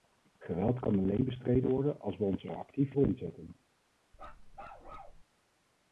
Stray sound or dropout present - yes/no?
yes